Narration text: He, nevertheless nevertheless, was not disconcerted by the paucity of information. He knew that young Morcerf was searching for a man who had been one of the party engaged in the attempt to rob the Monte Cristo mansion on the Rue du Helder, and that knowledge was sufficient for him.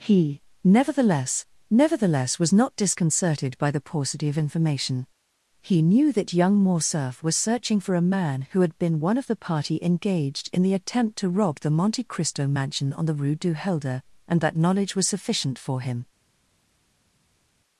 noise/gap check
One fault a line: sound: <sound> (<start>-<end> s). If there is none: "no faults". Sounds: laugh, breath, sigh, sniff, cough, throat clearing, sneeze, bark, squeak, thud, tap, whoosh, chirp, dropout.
no faults